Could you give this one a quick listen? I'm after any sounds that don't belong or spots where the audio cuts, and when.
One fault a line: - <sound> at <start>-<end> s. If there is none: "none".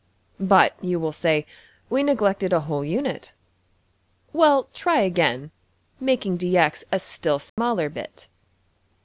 - dropout at 7.5-7.6 s